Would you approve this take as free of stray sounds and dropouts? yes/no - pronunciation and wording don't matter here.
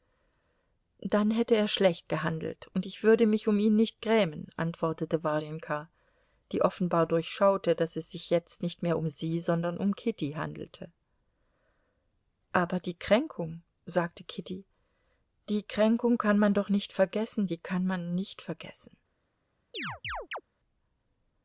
no